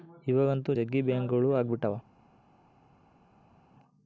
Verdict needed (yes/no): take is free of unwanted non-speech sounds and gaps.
yes